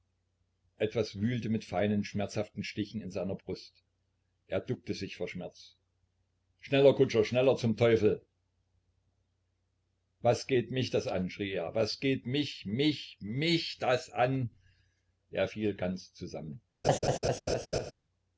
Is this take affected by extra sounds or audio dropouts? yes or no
yes